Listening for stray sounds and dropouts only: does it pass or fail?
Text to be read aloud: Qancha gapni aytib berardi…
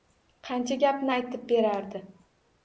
pass